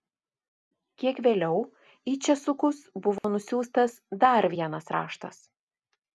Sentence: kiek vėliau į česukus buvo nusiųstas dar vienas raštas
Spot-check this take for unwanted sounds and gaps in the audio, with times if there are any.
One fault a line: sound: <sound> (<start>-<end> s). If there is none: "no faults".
sound: dropout (3.2-3.2 s)